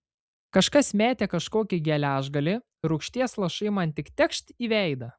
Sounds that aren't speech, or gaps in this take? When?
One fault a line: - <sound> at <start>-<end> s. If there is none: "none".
none